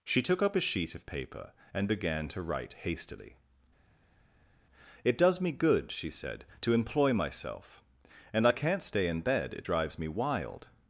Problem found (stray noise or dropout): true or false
false